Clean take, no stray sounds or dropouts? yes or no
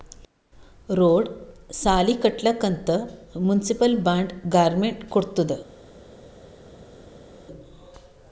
yes